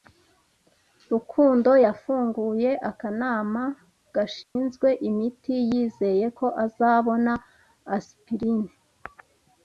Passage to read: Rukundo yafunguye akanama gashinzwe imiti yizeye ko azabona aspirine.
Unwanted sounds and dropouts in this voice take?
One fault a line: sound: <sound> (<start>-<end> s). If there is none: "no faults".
sound: dropout (4.4-4.6 s)